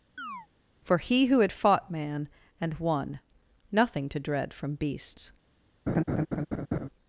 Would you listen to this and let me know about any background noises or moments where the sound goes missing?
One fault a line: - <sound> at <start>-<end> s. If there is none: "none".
- chirp at 0.2-0.5 s
- laugh at 5.9-6.9 s